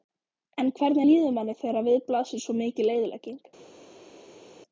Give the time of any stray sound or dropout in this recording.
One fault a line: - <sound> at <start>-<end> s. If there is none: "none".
none